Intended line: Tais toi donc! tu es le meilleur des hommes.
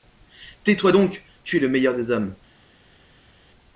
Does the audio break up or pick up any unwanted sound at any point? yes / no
no